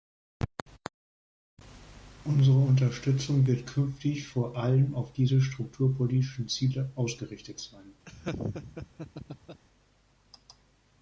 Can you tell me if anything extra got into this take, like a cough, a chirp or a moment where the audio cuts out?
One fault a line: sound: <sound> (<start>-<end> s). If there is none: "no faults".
sound: laugh (8.1-9.6 s)